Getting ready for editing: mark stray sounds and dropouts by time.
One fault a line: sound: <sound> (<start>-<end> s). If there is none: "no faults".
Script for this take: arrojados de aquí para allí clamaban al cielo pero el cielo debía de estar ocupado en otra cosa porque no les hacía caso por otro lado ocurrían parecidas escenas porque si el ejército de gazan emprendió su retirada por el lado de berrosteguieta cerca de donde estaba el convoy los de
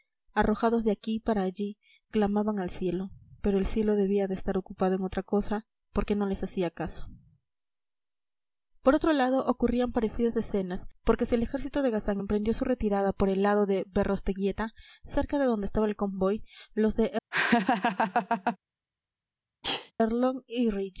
sound: laugh (17.3-18.6 s)
sound: sneeze (19.6-19.9 s)